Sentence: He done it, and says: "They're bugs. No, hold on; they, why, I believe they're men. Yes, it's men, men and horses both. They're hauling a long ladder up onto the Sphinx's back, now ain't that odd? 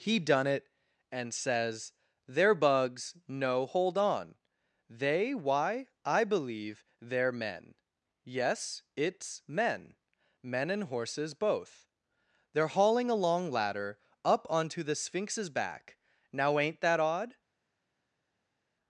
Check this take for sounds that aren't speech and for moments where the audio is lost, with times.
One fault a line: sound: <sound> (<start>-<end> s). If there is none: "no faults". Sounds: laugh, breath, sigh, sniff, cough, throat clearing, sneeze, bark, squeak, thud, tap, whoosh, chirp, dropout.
no faults